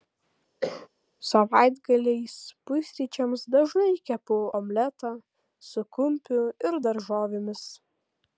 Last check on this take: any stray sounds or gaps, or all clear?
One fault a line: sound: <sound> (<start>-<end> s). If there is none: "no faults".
sound: cough (0.6-0.9 s)